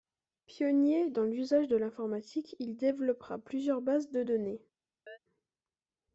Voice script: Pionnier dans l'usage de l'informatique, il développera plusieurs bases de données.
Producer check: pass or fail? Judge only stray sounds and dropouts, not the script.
fail